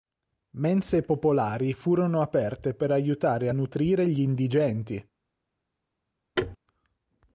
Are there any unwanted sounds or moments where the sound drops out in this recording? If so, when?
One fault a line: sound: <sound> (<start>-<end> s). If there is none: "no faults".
sound: thud (6.4-6.6 s)